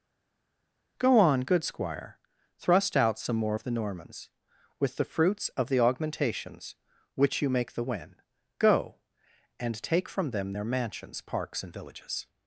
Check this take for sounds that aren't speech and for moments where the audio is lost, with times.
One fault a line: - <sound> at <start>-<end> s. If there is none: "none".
none